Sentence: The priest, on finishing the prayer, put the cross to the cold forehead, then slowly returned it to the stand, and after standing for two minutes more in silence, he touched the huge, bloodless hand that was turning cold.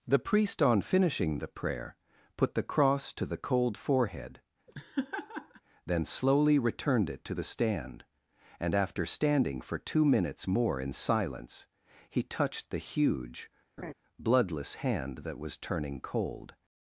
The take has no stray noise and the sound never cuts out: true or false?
false